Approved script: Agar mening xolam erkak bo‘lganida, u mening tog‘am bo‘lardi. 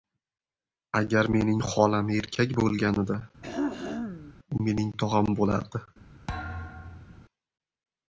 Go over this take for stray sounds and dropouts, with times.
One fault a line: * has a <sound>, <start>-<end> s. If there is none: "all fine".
* has a throat clearing, 3.4-4.3 s
* has a thud, 6.3-7.2 s